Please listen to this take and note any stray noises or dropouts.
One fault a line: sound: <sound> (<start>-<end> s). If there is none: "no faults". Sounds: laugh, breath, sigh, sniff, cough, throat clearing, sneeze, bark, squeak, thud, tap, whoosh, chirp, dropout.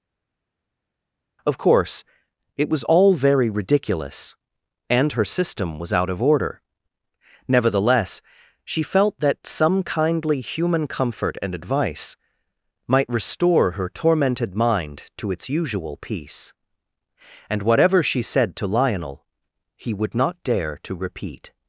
no faults